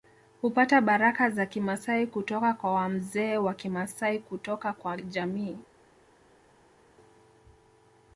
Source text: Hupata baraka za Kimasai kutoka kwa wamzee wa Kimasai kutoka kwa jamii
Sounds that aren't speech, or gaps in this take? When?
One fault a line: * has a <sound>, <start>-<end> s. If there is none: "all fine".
all fine